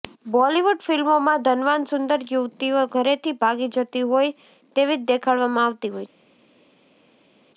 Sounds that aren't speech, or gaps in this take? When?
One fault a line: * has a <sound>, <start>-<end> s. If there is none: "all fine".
all fine